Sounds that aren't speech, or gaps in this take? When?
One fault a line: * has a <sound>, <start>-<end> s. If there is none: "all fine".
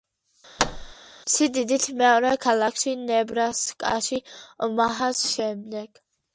* has a thud, 0.6-0.9 s